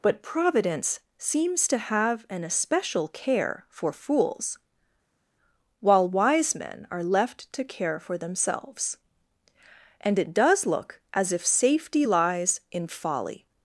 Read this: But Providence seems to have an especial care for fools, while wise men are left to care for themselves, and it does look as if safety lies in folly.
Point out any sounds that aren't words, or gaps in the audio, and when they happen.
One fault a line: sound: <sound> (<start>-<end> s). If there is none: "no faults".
no faults